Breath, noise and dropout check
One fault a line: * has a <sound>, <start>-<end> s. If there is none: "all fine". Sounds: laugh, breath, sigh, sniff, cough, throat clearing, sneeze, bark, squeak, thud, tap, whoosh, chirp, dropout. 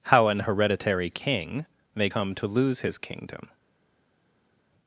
all fine